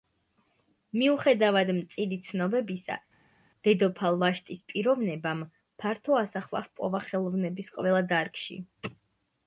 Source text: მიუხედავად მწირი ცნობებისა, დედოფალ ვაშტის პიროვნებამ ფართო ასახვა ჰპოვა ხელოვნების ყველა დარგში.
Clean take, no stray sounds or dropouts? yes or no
yes